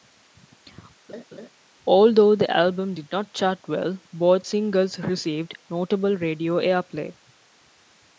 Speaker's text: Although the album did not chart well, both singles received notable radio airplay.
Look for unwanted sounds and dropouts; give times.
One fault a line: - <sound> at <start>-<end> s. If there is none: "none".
- laugh at 1.1-1.5 s